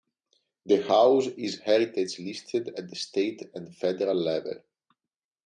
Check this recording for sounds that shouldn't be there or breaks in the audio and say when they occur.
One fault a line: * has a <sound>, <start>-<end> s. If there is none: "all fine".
all fine